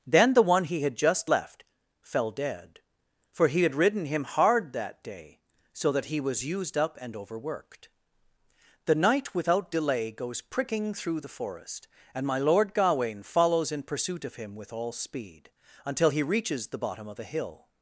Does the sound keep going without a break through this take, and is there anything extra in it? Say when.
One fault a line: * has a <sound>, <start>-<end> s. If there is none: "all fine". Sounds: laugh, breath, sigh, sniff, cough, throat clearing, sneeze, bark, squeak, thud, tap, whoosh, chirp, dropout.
all fine